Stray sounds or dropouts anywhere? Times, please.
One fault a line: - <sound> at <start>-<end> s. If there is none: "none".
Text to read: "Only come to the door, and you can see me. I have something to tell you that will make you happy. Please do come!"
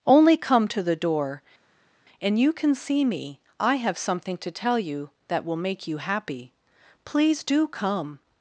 none